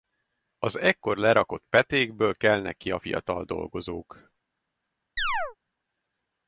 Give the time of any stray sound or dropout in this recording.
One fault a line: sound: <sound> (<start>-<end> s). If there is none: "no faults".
sound: chirp (5.2-5.6 s)